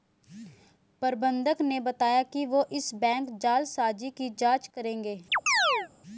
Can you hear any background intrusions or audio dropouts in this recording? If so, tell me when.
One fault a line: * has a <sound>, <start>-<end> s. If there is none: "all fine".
* has a chirp, 5.3-5.9 s